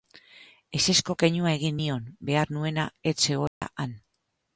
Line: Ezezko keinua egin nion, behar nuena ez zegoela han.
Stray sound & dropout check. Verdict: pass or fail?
fail